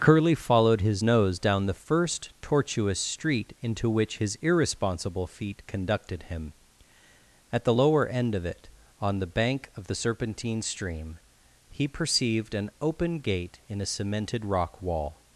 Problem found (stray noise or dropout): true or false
false